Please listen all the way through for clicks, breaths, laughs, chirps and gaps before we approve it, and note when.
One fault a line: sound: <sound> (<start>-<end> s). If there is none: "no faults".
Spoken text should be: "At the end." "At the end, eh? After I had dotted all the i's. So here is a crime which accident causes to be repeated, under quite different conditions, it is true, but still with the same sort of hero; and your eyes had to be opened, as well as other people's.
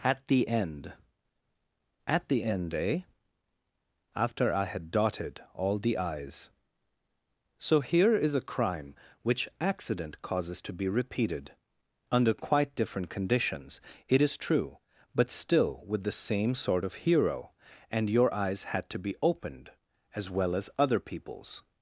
no faults